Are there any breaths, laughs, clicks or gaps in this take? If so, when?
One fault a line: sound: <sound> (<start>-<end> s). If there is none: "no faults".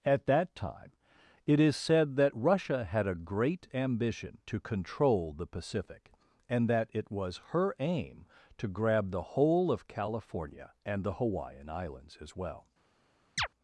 sound: chirp (13.4-13.5 s)